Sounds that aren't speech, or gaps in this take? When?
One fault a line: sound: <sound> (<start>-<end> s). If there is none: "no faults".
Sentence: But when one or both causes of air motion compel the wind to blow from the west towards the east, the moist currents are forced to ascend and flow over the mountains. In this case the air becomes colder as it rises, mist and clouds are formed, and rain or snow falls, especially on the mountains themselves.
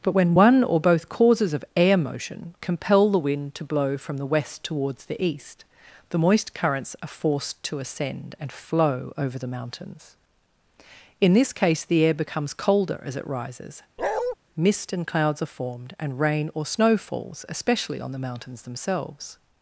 sound: bark (14.0-14.4 s)